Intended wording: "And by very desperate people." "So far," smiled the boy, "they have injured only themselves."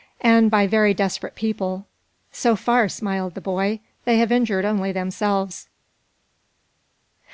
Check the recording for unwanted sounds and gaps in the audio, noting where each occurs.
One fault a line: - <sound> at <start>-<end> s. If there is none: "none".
none